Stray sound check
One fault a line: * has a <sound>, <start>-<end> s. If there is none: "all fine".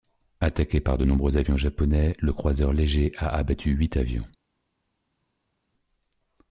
all fine